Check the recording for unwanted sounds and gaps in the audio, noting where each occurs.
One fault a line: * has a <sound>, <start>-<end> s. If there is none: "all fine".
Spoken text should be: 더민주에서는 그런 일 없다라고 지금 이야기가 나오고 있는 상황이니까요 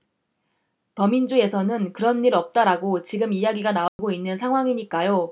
* has a dropout, 3.9-4.0 s